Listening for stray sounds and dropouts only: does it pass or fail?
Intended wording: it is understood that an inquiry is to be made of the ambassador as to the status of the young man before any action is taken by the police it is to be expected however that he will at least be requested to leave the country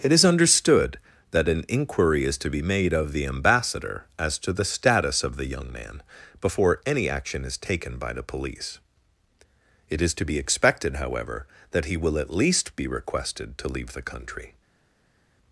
pass